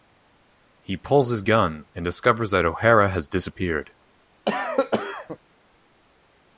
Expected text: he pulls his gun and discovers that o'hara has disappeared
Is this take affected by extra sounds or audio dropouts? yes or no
yes